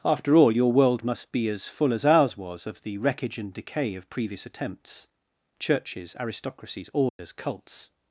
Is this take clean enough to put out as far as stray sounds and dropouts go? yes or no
no